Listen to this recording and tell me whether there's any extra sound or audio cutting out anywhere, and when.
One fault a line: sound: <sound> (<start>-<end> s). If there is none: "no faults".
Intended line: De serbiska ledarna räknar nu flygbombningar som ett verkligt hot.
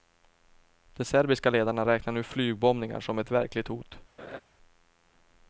sound: laugh (4.2-4.4 s)